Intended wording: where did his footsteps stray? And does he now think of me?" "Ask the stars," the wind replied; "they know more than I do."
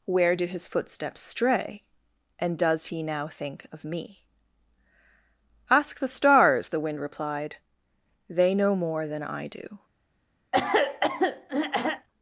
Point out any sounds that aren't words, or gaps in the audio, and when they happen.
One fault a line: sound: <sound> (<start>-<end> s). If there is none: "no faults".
sound: throat clearing (10.5-12.1 s)